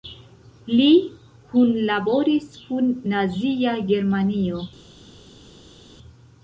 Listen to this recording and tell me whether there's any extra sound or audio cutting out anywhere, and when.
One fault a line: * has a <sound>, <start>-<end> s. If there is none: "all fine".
all fine